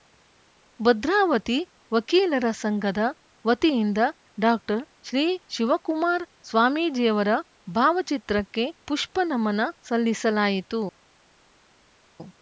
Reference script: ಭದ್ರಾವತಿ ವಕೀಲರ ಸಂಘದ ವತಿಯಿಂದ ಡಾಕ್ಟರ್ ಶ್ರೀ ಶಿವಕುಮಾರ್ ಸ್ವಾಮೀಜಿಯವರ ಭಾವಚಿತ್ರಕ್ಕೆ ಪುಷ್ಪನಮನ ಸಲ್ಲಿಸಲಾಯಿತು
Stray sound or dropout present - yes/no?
no